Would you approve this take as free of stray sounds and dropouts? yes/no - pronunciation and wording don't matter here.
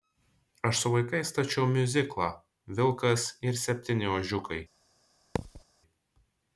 no